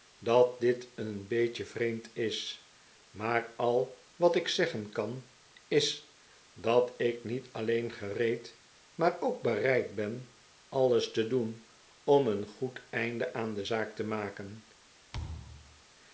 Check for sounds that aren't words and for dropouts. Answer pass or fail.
fail